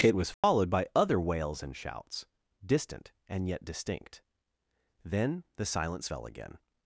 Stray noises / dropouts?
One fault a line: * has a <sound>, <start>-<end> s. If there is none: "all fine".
* has a dropout, 0.3-0.4 s